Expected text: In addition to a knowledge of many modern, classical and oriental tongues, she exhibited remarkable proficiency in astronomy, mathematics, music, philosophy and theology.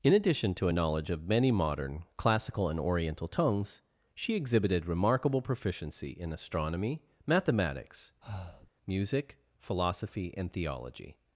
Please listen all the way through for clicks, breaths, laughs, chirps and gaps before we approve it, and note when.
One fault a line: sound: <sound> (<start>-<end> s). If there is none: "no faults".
sound: breath (8.2-8.7 s)